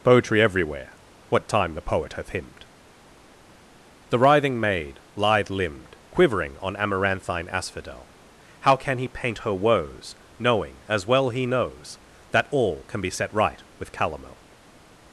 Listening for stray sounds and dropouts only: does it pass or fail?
pass